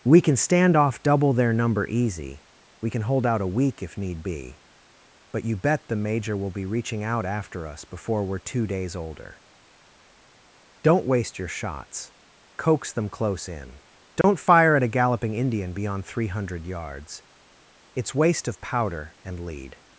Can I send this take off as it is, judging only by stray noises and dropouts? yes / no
no